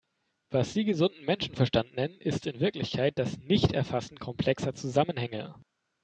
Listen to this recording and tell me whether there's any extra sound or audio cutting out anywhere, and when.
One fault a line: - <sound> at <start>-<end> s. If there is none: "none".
none